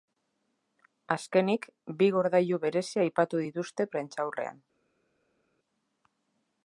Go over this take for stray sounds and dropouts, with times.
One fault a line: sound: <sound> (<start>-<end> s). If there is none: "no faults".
no faults